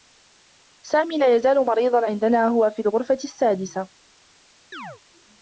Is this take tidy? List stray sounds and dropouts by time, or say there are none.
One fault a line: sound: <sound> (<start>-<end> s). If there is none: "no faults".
sound: chirp (4.7-5.0 s)